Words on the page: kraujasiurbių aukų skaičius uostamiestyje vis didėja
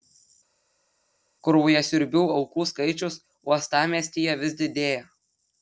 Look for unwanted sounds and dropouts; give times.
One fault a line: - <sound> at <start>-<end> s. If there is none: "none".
none